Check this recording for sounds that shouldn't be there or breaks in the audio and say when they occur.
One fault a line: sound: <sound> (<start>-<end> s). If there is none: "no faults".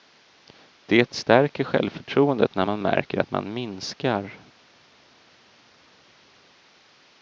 no faults